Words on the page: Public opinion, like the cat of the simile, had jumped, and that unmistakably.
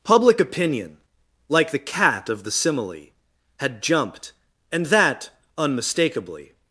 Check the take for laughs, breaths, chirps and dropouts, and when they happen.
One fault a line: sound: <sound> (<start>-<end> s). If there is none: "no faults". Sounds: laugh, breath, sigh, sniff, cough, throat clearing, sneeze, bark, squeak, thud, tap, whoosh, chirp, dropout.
no faults